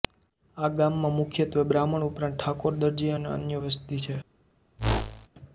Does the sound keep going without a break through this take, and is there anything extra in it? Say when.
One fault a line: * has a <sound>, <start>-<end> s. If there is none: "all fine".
* has a whoosh, 4.8-5.3 s